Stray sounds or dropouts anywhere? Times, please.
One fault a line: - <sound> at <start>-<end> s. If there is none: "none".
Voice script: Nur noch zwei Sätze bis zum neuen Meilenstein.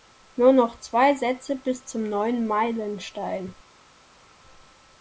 none